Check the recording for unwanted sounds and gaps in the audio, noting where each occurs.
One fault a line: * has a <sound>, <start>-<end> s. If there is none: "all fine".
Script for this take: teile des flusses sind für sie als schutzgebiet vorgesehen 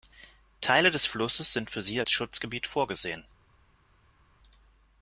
all fine